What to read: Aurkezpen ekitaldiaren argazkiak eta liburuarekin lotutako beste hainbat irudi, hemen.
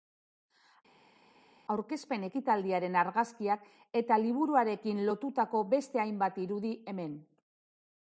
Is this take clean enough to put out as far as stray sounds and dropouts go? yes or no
yes